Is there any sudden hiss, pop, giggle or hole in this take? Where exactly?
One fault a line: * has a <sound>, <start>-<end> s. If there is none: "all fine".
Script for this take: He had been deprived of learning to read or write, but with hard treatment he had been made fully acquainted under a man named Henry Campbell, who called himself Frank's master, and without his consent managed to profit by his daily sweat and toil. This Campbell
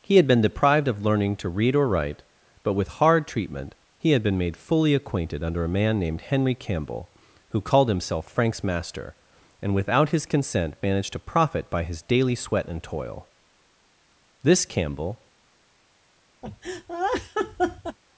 * has a laugh, 16.4-18.0 s